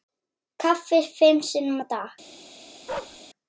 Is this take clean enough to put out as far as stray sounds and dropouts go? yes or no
no